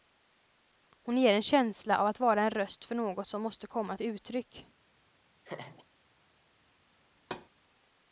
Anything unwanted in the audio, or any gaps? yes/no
yes